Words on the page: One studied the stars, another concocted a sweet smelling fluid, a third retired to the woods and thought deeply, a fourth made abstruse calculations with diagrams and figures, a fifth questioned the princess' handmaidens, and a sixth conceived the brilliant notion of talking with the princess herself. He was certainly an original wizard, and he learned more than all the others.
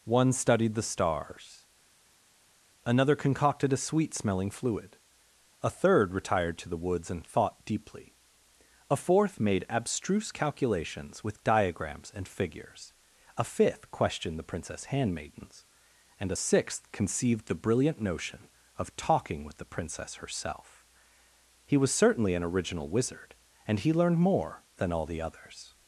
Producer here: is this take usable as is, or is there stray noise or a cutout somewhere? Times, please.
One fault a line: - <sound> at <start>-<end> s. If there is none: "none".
none